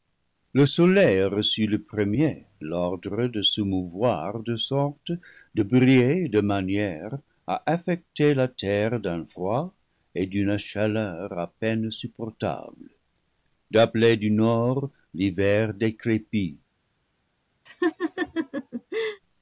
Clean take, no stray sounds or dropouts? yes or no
no